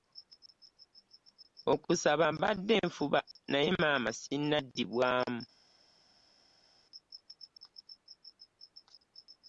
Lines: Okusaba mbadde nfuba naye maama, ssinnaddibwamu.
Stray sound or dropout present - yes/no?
no